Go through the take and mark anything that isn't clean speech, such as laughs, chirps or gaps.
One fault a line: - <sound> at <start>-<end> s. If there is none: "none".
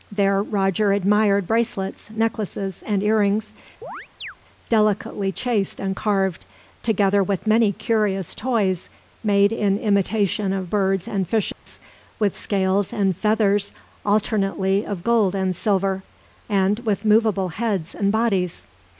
- chirp at 3.8-4.4 s
- dropout at 11.5-11.7 s